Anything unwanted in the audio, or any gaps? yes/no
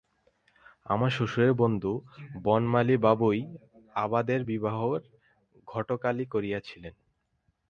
no